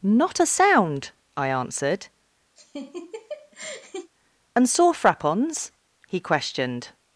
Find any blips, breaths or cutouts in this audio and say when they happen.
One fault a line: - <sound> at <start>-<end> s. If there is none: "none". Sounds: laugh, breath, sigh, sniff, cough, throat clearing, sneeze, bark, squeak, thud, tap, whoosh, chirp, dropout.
- laugh at 2.6-4.1 s